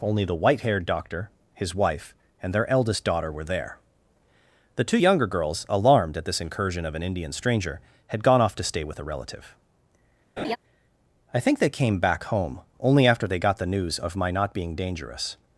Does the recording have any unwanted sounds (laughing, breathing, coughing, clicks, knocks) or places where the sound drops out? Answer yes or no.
yes